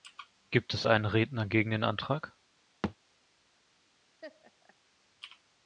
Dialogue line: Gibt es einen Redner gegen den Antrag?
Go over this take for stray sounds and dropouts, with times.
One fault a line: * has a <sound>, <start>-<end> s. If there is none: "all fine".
* has a thud, 2.8-3.0 s
* has a laugh, 4.2-4.7 s